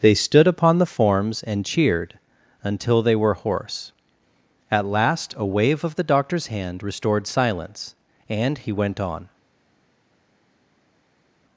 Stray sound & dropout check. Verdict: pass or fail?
pass